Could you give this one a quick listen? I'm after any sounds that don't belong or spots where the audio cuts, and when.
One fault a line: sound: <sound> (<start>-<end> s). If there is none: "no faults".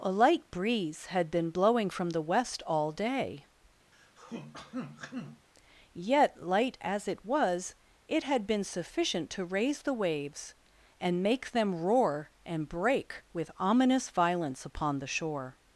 sound: throat clearing (3.9-5.5 s)